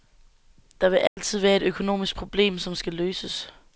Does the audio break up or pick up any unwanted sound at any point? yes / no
yes